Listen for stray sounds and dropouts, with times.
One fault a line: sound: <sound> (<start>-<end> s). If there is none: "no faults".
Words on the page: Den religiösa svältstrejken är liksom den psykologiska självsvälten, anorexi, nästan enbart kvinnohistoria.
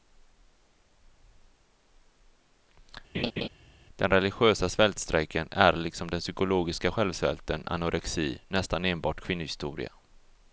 sound: laugh (3.1-3.5 s)